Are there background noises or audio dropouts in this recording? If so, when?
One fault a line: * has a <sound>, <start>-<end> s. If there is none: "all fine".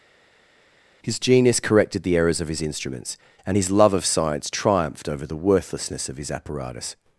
all fine